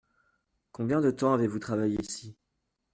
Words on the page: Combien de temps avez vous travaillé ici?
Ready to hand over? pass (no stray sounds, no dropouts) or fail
pass